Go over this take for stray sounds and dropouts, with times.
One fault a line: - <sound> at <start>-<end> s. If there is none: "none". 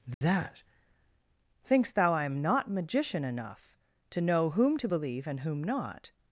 - dropout at 0.1-0.2 s